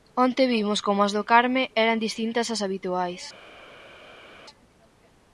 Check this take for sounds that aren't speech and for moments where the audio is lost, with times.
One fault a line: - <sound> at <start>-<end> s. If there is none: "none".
none